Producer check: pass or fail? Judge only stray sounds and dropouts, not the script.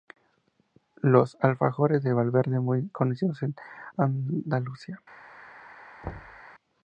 fail